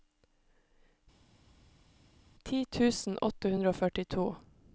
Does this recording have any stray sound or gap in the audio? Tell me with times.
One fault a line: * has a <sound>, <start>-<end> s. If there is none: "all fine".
all fine